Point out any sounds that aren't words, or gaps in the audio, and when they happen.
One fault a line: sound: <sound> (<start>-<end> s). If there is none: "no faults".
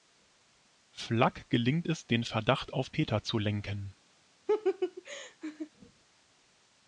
sound: laugh (4.5-5.7 s)